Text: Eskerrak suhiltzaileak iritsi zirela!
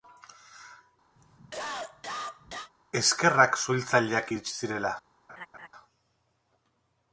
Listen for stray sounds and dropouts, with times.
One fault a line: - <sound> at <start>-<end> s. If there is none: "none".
- cough at 1.2-2.7 s
- laugh at 5.3-5.7 s